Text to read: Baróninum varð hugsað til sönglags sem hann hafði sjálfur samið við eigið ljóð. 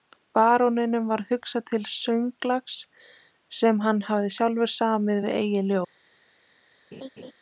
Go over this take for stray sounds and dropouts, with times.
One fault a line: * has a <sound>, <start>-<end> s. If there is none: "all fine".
* has a laugh, 6.9-7.3 s